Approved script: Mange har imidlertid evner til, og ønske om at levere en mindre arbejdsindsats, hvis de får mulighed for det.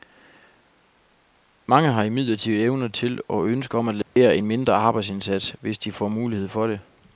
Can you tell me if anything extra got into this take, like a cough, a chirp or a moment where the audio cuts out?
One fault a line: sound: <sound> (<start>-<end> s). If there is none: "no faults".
sound: dropout (4.0-4.2 s)